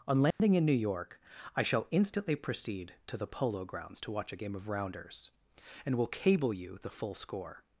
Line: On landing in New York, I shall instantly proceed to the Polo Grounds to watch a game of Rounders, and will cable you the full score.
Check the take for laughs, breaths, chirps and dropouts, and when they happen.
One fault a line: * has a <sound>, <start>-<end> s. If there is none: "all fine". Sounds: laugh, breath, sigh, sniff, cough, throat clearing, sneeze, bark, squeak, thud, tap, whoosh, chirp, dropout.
* has a dropout, 0.3-0.4 s